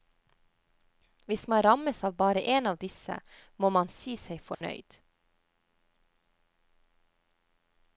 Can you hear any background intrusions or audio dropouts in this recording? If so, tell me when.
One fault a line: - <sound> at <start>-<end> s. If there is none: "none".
- dropout at 4.5-4.6 s